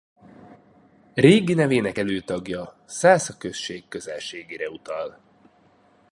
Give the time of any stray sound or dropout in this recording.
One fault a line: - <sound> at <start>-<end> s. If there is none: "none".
none